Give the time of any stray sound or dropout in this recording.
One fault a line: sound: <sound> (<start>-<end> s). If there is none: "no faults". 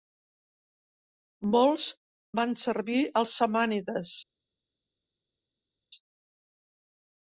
no faults